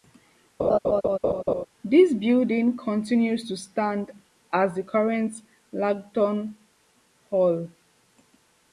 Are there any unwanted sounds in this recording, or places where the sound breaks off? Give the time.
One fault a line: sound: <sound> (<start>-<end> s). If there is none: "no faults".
sound: laugh (0.6-1.7 s)